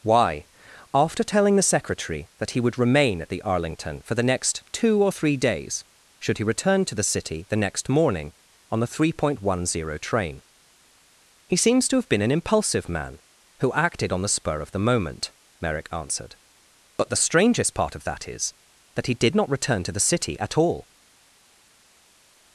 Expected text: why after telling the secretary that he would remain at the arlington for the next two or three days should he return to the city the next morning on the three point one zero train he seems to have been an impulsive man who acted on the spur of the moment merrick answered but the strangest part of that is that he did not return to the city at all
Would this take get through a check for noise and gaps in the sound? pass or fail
pass